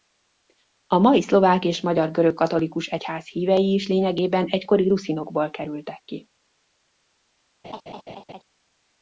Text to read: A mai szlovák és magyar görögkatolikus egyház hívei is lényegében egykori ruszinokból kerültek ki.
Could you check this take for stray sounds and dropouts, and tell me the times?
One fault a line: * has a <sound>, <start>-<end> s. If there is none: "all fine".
* has a laugh, 7.6-8.4 s